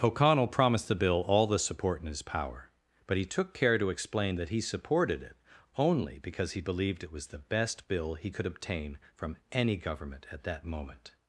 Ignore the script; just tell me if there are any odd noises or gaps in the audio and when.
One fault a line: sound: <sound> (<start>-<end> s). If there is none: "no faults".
no faults